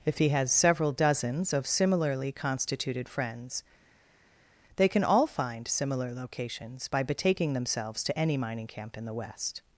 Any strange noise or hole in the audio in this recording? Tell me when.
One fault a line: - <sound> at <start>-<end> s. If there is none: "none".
none